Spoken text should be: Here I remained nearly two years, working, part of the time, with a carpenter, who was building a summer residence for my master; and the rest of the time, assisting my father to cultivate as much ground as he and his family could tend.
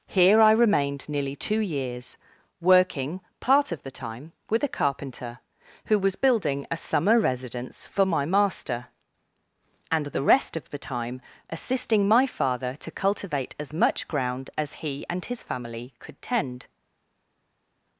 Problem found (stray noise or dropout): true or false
false